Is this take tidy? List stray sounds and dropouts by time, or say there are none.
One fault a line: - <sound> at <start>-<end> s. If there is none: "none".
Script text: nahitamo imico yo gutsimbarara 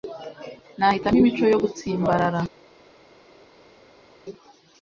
none